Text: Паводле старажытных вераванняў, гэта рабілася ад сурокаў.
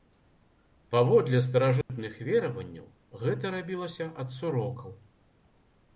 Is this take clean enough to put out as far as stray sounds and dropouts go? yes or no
no